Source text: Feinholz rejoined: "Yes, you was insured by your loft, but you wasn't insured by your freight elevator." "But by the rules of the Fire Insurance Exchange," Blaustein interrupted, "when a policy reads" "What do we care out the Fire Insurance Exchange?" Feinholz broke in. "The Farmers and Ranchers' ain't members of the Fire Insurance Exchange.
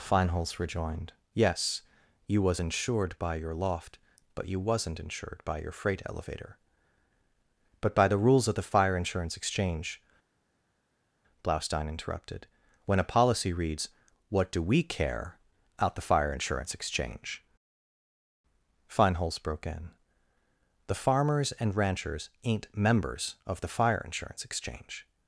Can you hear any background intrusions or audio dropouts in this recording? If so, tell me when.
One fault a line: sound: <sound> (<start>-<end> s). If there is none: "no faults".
no faults